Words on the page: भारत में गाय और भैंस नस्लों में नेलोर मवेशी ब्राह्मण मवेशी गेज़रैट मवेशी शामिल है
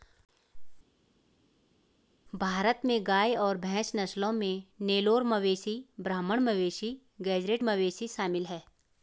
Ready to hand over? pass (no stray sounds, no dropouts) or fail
pass